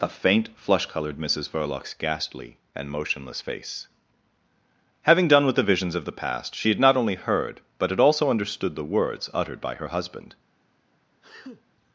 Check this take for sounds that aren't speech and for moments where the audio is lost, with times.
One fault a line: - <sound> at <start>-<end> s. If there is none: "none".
- sneeze at 11.2-11.6 s